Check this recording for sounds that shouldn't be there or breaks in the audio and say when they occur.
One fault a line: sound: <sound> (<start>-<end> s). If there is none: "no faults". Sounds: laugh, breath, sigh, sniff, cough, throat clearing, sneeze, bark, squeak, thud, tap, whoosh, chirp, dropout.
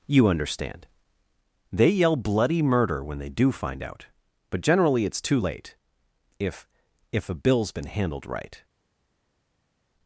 no faults